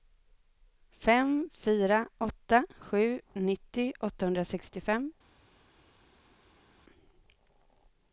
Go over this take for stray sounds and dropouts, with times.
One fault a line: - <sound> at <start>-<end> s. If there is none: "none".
none